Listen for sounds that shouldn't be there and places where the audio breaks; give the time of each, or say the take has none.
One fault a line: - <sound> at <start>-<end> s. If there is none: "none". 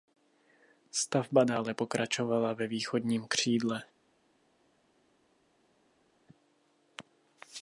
none